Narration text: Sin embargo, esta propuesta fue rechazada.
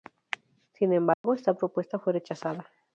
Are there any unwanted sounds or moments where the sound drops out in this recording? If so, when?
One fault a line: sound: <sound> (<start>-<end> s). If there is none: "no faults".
sound: dropout (1.1-1.2 s)